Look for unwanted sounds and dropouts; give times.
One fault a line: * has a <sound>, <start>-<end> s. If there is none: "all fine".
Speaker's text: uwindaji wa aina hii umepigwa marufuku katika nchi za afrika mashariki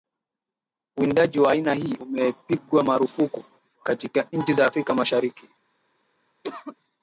* has a cough, 6.4-6.8 s